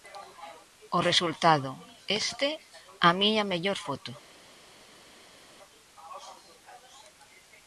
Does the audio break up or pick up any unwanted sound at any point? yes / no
no